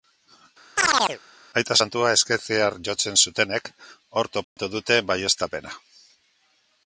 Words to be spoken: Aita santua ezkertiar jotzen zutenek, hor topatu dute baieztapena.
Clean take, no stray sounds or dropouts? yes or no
no